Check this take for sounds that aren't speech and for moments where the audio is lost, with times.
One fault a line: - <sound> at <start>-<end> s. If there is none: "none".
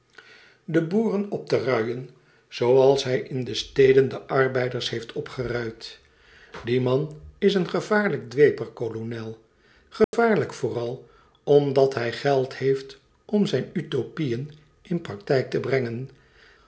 - dropout at 10.0-10.1 s